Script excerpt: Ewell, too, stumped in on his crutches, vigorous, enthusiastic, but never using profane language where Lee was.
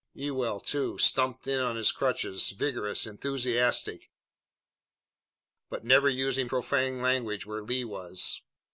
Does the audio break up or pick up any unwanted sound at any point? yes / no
no